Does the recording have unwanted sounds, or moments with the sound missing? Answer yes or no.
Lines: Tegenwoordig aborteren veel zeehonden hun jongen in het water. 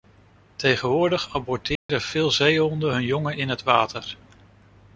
yes